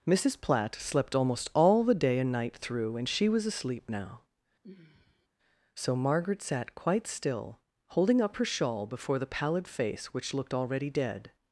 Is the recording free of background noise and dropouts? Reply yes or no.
no